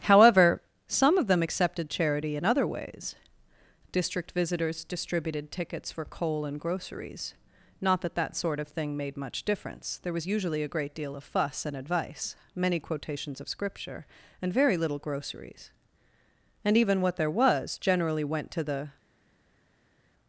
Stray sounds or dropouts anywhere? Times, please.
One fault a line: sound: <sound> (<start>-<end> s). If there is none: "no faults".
no faults